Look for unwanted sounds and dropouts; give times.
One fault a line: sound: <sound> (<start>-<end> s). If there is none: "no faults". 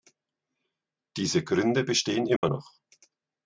sound: dropout (2.4-2.4 s)